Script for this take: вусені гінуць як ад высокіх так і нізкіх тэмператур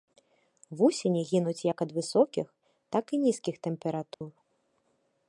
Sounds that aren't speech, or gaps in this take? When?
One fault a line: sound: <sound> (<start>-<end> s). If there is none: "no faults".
sound: dropout (4.1-4.2 s)